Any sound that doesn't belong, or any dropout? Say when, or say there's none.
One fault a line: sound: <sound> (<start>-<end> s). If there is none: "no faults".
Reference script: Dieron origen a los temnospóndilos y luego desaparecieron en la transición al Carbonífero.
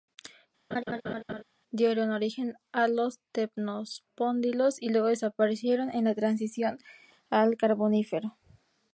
sound: laugh (0.7-1.4 s)